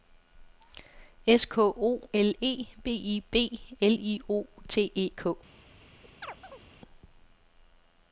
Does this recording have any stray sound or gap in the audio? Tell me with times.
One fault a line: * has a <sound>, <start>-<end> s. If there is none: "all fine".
* has a chirp, 6.0-6.7 s